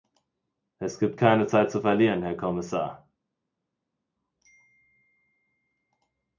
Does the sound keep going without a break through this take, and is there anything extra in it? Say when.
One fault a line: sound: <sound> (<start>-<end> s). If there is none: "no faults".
no faults